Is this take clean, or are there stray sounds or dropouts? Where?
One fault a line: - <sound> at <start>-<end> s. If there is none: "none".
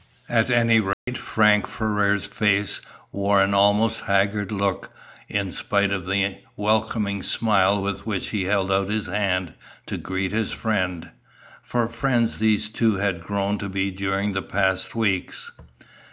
- dropout at 0.9-1.1 s